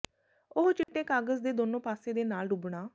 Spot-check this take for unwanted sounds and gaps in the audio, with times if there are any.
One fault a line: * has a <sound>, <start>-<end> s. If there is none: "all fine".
* has a dropout, 0.8-0.9 s